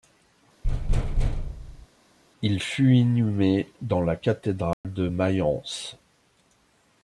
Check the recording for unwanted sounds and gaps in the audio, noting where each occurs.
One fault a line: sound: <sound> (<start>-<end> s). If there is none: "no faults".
sound: thud (0.6-1.9 s)
sound: dropout (4.7-4.8 s)